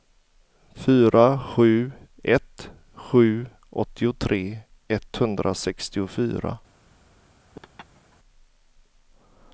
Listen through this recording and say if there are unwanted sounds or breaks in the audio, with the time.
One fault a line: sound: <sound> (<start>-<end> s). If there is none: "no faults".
sound: laugh (7.5-8.2 s)